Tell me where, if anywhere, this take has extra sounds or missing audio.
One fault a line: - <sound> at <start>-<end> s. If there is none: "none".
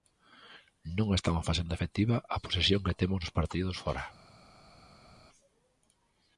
none